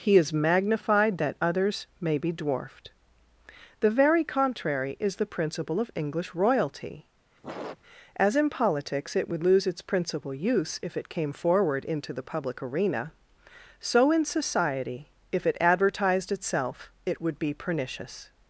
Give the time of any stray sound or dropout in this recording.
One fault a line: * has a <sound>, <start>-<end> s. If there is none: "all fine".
* has a sniff, 7.4-7.8 s